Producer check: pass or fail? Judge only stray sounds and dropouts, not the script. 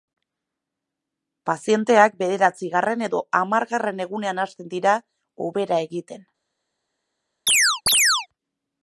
fail